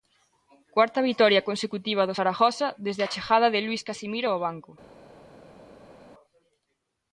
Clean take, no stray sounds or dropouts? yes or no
yes